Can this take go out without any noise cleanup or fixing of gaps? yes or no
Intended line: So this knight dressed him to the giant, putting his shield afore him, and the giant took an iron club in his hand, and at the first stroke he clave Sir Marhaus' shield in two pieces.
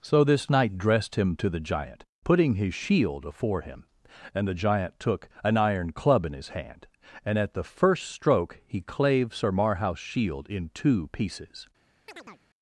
no